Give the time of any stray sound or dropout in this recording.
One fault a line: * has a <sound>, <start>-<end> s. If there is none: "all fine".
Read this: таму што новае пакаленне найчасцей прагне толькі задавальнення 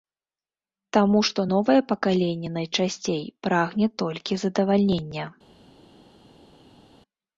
all fine